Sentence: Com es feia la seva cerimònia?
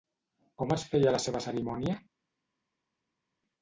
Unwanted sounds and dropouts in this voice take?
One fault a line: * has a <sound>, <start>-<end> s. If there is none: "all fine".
all fine